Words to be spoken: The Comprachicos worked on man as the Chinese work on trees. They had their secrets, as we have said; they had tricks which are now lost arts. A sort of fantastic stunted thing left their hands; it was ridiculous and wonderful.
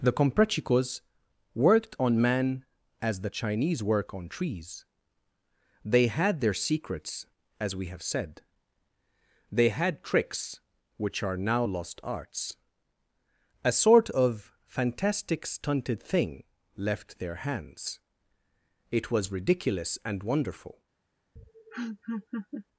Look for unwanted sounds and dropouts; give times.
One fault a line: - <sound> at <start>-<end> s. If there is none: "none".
- laugh at 21.4-22.7 s